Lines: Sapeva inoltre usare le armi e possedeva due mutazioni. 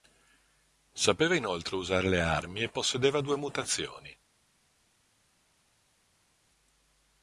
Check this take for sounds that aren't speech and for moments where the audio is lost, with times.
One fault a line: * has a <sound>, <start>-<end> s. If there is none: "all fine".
all fine